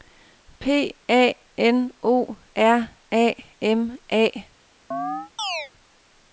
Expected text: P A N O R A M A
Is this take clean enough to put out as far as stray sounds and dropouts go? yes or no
no